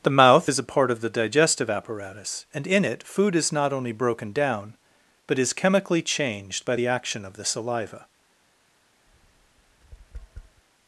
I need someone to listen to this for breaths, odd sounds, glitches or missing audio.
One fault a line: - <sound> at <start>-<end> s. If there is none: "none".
- tap at 9.1-10.6 s